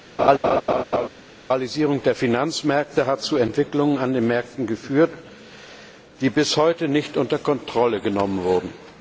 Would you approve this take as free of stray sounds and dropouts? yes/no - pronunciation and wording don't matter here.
no